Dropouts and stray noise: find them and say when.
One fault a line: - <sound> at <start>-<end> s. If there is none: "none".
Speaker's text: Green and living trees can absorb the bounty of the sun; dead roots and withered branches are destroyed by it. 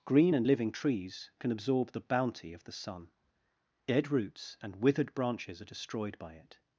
none